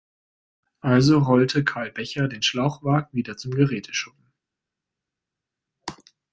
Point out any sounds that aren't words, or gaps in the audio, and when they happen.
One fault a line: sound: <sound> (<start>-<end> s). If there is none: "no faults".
no faults